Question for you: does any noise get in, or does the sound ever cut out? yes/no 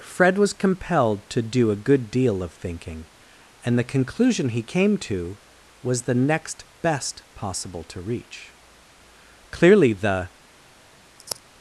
yes